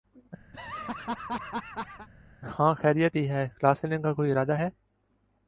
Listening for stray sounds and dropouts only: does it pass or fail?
fail